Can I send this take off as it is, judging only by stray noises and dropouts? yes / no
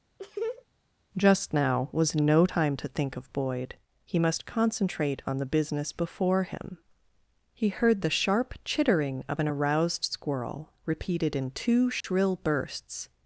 no